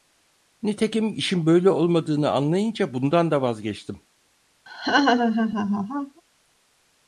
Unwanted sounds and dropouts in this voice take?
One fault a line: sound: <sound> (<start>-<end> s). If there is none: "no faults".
sound: laugh (4.7-6.2 s)